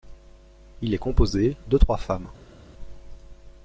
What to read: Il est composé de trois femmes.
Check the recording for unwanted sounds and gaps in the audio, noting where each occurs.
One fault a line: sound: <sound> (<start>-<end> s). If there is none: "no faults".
no faults